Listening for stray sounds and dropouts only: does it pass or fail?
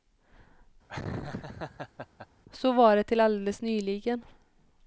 fail